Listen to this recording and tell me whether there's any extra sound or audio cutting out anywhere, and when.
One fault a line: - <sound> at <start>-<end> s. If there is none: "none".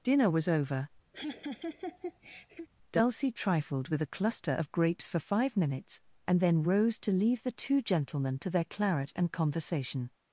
- laugh at 1.1-2.7 s